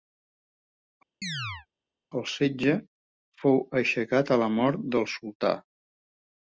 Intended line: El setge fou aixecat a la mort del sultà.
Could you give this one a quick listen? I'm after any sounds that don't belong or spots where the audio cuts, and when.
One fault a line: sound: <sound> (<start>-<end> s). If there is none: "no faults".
sound: chirp (1.2-1.7 s)